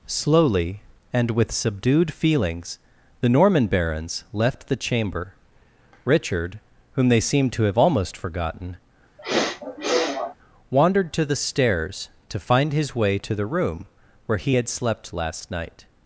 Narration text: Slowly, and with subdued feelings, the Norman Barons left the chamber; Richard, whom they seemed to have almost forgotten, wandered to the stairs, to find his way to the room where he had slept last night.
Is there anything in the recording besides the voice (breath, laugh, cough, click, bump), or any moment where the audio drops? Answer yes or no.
yes